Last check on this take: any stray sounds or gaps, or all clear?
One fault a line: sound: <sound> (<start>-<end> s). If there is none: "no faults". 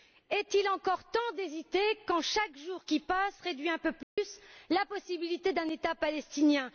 sound: dropout (4.0-4.2 s)